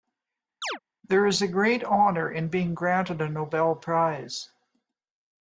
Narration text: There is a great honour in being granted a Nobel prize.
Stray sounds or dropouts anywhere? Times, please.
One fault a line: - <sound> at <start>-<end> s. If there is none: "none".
- chirp at 0.6-0.8 s